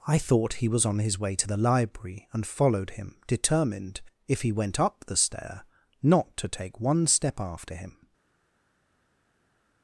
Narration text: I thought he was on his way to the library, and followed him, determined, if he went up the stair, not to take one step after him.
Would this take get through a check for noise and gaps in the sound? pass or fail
pass